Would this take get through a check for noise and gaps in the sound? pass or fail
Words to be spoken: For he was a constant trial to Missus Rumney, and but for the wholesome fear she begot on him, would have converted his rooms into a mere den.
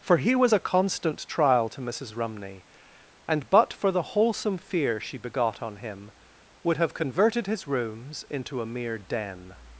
pass